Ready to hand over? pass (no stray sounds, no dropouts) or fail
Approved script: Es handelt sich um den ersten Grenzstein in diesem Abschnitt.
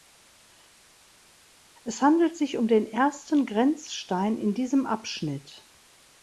pass